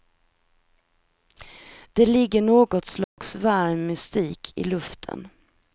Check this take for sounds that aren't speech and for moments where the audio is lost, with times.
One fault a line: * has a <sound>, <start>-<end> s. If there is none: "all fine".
* has a dropout, 3.0-3.2 s